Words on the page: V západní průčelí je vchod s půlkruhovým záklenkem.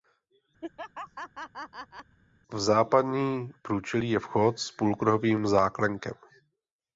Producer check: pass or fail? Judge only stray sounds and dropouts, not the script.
fail